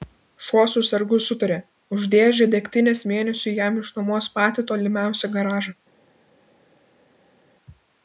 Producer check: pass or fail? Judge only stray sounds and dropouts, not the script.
pass